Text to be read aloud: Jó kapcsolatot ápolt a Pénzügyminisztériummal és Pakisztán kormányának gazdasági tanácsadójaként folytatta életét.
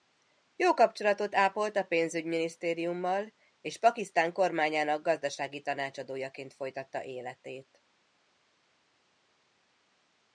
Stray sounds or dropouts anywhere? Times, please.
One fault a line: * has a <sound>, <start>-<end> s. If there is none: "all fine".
all fine